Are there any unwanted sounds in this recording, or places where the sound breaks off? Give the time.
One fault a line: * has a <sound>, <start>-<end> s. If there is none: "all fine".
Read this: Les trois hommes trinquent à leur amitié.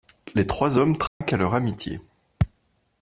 * has a dropout, 1.1-1.2 s